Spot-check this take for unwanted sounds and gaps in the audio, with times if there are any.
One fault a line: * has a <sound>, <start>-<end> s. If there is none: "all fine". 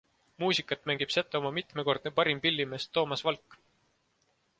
all fine